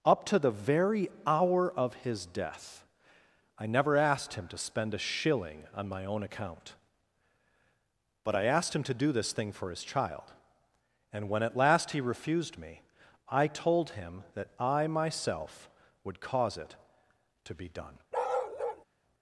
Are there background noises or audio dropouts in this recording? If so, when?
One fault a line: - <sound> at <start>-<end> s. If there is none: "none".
- bark at 18.1-18.9 s